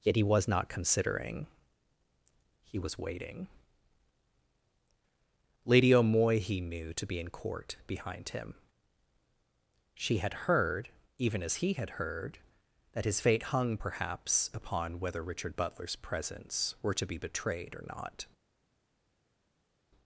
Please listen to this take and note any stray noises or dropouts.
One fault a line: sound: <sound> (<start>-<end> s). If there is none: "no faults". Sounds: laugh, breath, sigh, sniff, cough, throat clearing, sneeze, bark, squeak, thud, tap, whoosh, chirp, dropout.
no faults